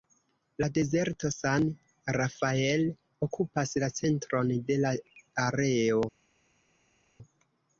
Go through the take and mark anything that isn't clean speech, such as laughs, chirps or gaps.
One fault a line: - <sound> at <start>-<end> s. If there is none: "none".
none